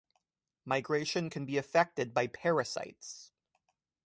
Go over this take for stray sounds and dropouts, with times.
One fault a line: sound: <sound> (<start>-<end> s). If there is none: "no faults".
no faults